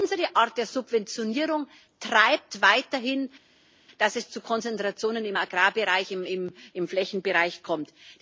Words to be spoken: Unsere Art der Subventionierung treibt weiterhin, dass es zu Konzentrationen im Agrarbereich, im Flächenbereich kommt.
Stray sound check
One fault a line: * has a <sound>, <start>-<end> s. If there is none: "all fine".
all fine